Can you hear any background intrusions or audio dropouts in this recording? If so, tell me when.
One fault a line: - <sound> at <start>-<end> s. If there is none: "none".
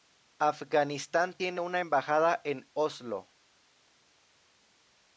none